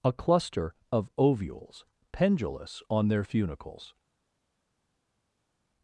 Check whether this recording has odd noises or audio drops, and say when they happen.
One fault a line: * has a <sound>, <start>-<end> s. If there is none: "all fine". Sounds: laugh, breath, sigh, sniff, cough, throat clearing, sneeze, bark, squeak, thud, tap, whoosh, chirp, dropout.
all fine